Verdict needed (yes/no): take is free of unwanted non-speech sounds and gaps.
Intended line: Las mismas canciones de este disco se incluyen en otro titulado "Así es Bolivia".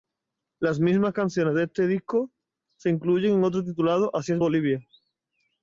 yes